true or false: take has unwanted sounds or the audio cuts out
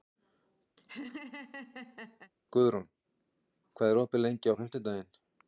true